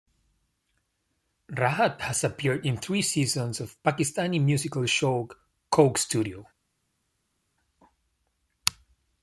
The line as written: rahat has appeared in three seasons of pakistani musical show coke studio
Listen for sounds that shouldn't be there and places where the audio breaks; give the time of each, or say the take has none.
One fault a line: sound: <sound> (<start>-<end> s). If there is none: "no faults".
no faults